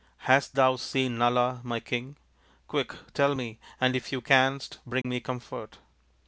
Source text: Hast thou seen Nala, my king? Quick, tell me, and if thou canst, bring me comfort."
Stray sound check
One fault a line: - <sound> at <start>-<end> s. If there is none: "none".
- dropout at 5.0-5.0 s